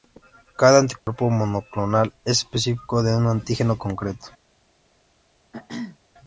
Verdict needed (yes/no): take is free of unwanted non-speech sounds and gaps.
no